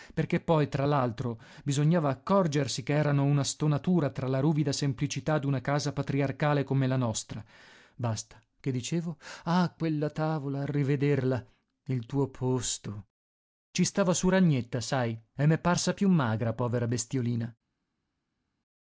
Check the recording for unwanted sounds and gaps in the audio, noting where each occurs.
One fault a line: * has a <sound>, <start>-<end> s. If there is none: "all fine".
all fine